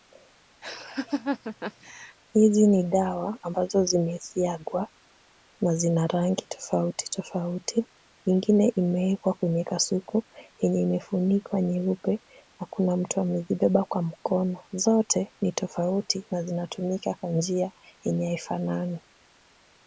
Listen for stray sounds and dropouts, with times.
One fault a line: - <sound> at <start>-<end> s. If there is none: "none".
- laugh at 0.6-2.2 s